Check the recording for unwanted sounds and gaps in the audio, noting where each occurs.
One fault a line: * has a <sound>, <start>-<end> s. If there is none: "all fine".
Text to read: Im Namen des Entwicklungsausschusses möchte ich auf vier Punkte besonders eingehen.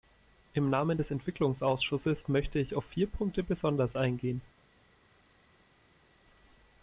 all fine